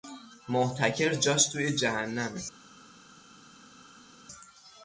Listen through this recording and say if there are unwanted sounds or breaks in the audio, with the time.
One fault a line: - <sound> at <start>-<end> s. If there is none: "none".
none